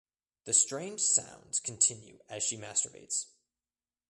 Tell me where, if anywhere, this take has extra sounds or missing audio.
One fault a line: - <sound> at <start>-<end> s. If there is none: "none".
none